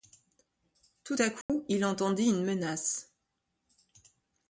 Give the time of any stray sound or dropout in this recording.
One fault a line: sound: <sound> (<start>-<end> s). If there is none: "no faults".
sound: dropout (1.4-1.5 s)